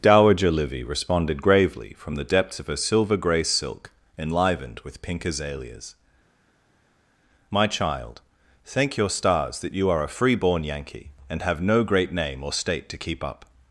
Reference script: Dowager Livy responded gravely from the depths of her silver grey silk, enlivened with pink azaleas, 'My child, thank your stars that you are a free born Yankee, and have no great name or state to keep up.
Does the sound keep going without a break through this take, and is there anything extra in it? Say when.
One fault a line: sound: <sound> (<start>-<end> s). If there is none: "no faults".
no faults